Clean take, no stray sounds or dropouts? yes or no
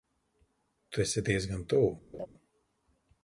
no